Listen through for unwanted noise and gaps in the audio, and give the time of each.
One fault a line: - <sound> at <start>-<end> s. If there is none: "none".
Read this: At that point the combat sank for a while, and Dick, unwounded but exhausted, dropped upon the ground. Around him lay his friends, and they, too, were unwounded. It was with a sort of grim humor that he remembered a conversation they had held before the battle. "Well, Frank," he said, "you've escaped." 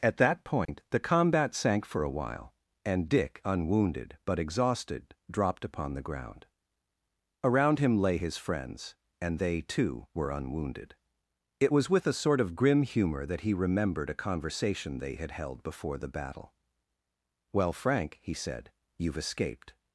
- dropout at 0.7-0.7 s